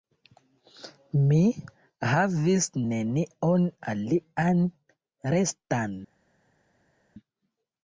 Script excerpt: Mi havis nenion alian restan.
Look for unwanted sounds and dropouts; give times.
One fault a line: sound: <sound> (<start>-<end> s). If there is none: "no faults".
no faults